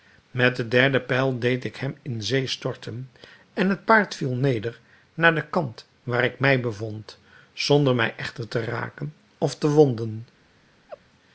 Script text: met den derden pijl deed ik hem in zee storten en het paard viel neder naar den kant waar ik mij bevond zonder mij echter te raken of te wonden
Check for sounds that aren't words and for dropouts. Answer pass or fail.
fail